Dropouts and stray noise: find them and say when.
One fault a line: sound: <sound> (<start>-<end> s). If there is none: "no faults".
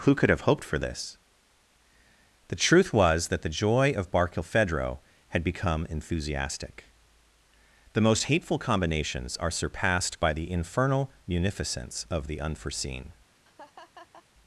sound: laugh (13.4-14.3 s)